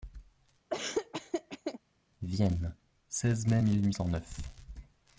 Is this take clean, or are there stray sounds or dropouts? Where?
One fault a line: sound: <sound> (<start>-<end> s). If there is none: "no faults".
sound: laugh (0.7-1.8 s)